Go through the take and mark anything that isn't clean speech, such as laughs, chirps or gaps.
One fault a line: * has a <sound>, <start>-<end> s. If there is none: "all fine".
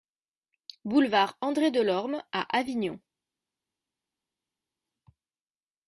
all fine